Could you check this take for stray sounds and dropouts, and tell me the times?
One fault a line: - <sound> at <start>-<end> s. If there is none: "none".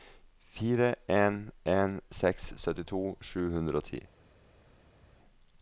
none